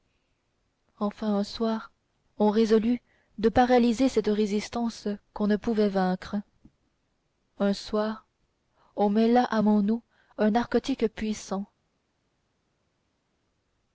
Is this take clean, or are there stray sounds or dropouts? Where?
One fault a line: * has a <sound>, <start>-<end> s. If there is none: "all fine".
all fine